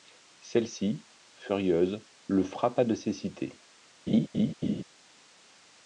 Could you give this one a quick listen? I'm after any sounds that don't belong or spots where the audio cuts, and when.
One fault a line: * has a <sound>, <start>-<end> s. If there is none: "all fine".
* has a laugh, 4.1-4.8 s